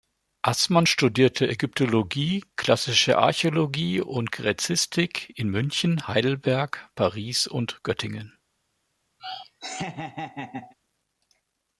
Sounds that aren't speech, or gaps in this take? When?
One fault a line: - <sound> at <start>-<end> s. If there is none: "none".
- laugh at 9.2-10.7 s